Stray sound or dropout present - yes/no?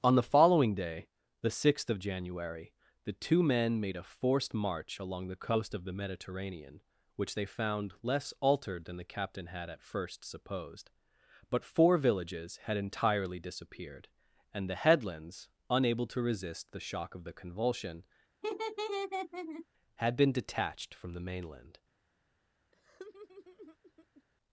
yes